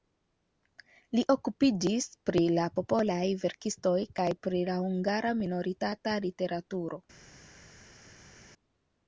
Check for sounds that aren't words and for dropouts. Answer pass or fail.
pass